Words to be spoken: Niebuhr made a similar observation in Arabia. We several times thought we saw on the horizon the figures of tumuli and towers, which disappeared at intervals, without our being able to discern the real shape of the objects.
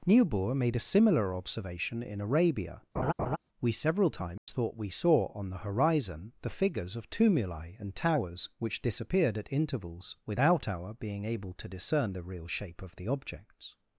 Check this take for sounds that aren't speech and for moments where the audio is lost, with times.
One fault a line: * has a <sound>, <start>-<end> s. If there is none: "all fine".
* has a laugh, 3.0-3.4 s
* has a dropout, 4.4-4.5 s